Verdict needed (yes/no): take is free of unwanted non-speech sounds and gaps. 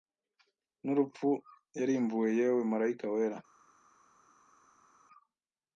yes